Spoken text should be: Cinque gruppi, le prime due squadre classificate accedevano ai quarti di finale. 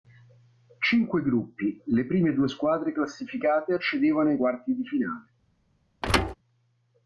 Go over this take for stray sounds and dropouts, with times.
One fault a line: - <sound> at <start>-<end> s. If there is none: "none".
- thud at 6.0-6.3 s